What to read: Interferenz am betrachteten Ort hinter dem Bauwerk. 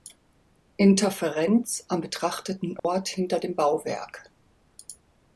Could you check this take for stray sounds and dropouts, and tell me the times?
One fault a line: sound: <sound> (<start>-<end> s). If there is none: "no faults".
sound: dropout (2.8-2.8 s)